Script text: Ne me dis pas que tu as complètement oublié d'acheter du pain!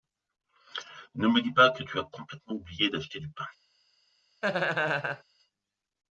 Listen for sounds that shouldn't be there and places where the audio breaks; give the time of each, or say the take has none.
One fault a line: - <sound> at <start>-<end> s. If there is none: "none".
- laugh at 4.4-5.2 s